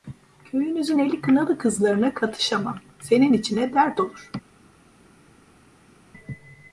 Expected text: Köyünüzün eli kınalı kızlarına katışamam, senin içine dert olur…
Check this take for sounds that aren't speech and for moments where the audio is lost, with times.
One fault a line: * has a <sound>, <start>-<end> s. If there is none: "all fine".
all fine